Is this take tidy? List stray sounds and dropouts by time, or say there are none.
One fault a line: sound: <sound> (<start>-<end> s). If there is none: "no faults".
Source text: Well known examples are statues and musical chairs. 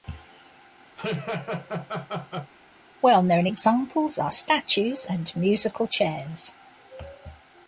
sound: laugh (1.0-2.5 s)